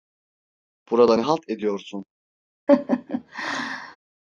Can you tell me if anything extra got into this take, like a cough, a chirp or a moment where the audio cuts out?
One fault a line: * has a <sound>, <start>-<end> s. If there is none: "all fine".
* has a laugh, 2.7-4.0 s